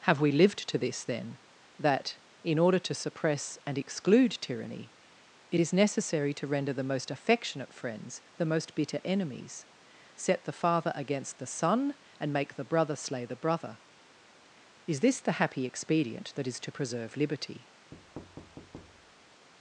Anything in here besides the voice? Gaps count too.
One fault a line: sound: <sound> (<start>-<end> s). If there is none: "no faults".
sound: thud (17.9-19.5 s)